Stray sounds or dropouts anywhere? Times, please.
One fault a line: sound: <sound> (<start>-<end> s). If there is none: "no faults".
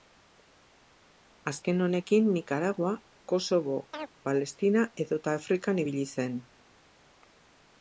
sound: chirp (3.9-4.1 s)